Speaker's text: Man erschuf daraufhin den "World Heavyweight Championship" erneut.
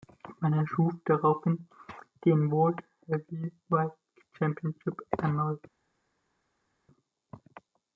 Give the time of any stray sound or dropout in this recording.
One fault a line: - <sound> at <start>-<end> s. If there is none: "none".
none